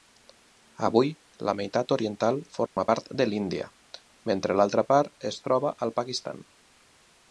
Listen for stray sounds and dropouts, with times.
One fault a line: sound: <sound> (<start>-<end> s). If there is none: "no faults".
sound: dropout (2.7-2.8 s)